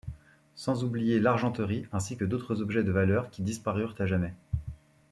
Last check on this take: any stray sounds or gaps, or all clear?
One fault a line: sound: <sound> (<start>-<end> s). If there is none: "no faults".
no faults